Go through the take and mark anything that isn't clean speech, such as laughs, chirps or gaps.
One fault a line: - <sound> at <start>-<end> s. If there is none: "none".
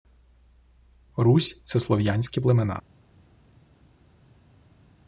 none